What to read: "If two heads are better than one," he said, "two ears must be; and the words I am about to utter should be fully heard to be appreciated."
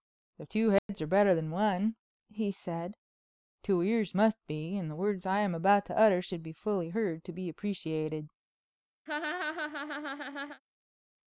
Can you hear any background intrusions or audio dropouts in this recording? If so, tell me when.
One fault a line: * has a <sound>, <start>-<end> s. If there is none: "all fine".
* has a dropout, 0.8-0.9 s
* has a laugh, 9.1-10.6 s